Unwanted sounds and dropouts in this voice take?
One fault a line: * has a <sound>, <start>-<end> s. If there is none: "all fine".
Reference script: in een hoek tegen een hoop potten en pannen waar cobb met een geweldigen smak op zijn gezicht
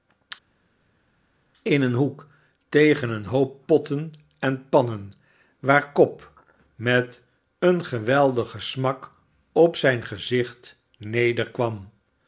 all fine